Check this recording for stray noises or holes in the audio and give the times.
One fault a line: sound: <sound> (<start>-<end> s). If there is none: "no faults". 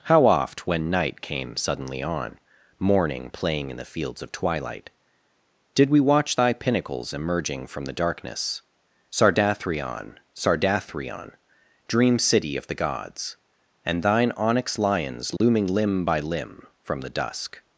sound: dropout (15.4-15.4 s)